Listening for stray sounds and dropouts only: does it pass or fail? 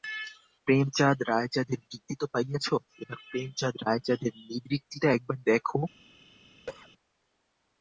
fail